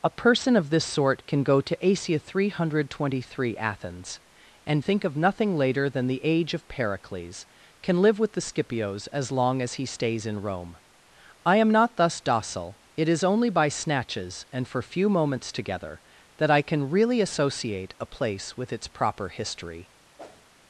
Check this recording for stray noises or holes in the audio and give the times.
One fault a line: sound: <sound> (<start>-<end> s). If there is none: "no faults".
sound: whoosh (20.2-20.5 s)